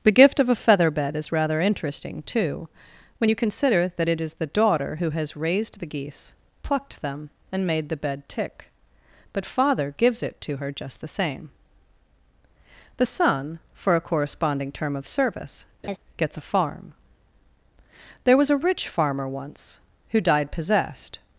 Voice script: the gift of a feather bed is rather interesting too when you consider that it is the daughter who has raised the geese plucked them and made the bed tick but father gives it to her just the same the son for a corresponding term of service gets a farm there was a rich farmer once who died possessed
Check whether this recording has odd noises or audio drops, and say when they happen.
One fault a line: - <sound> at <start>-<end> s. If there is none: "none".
- laugh at 15.8-16.0 s